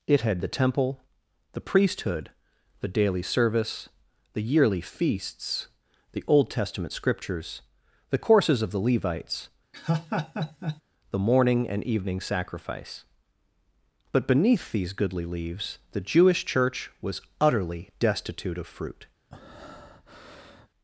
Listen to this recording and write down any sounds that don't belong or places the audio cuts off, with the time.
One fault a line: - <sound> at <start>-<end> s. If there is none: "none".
- laugh at 9.7-10.8 s
- breath at 19.3-20.7 s